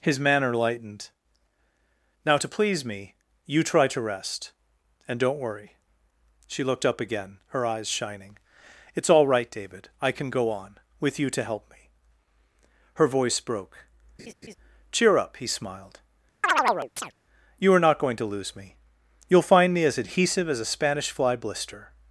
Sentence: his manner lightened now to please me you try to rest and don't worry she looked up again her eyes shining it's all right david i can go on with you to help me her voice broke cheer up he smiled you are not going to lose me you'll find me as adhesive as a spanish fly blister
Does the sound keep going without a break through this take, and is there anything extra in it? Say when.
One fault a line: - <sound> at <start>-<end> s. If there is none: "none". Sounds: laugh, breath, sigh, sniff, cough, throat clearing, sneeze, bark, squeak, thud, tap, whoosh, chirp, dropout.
- laugh at 14.2-14.6 s
- chirp at 16.4-17.1 s